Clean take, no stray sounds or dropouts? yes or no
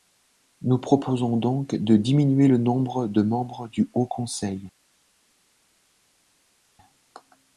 yes